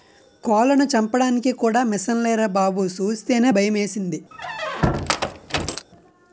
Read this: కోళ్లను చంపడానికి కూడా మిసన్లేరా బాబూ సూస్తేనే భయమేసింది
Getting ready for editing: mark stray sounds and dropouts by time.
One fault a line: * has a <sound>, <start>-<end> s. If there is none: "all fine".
* has a squeak, 4.3-5.9 s